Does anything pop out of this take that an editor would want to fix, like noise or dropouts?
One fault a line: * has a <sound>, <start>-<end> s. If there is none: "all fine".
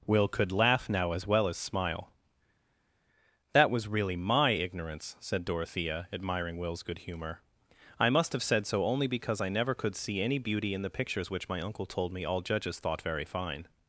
all fine